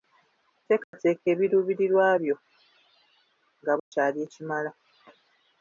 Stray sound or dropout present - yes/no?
yes